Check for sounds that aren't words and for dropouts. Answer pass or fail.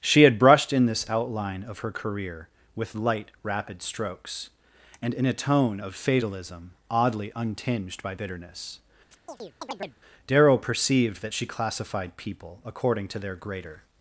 fail